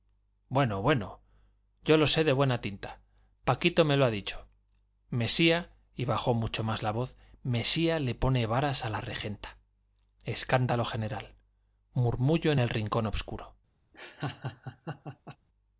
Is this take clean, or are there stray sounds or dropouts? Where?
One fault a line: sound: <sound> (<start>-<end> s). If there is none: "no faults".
sound: laugh (13.9-15.4 s)